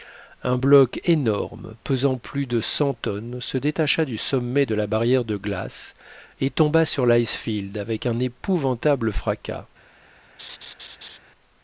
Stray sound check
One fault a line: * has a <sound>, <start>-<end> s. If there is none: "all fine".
* has a laugh, 10.4-11.2 s